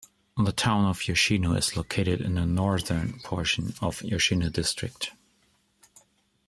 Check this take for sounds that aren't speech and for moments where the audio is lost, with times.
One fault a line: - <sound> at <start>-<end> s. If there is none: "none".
none